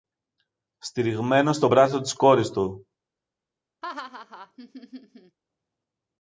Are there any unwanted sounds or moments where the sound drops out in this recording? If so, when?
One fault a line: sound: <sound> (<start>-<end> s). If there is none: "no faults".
sound: laugh (3.8-5.4 s)